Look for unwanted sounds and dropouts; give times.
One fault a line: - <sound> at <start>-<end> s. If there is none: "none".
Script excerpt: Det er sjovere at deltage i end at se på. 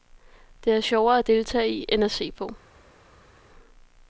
none